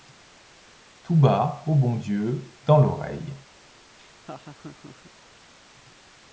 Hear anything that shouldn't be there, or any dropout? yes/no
yes